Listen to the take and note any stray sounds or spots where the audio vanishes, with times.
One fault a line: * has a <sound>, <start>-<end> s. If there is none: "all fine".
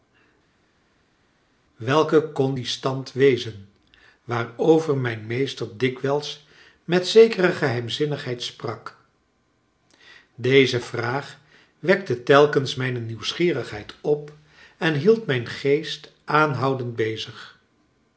all fine